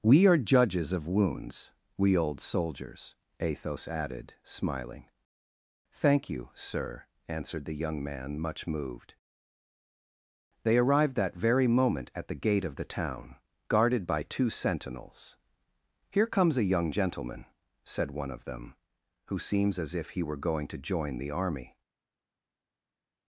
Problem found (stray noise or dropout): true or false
false